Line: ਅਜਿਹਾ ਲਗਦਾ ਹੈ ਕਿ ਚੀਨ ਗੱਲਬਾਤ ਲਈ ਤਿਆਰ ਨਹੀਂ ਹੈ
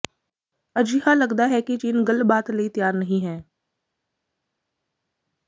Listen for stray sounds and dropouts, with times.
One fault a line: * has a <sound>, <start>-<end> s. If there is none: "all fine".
all fine